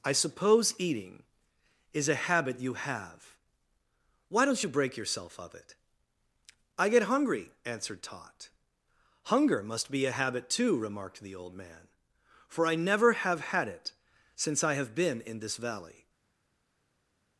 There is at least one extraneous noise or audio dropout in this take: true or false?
false